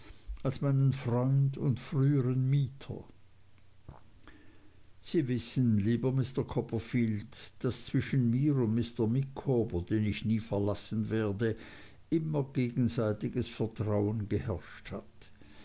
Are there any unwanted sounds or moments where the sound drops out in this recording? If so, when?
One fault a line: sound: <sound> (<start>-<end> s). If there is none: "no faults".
no faults